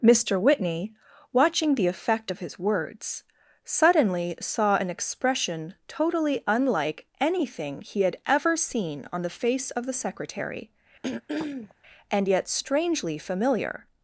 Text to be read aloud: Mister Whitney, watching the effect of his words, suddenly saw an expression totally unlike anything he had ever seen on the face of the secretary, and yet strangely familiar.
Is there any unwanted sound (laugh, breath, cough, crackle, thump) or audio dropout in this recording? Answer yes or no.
yes